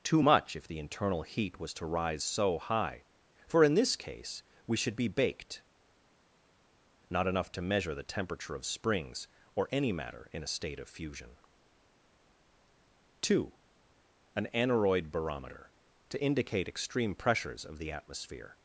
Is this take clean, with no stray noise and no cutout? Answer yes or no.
yes